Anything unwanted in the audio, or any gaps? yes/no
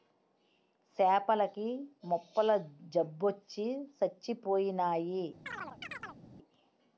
yes